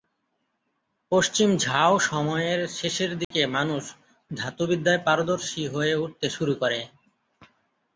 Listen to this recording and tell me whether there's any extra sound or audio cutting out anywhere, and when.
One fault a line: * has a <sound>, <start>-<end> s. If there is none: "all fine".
* has a dropout, 3.2-3.3 s